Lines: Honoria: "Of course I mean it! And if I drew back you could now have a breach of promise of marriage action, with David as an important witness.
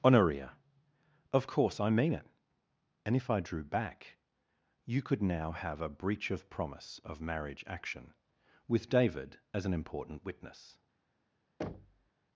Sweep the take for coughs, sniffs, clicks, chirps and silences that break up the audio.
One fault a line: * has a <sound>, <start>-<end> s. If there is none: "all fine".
* has a thud, 11.6-12.1 s